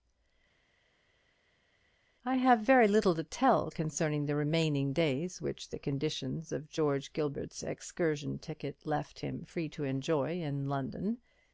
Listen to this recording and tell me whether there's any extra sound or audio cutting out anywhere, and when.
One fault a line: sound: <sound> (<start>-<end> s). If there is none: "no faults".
no faults